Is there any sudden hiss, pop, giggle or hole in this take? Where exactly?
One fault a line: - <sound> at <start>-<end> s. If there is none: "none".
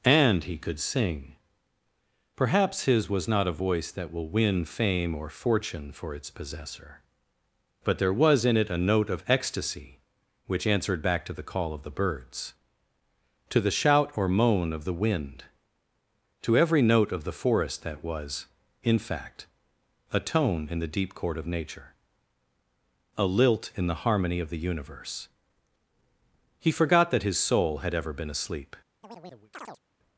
- chirp at 29.0-29.8 s